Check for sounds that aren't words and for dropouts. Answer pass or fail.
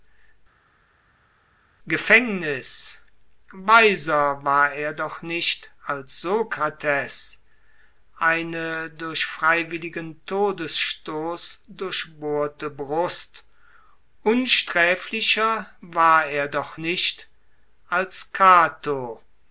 pass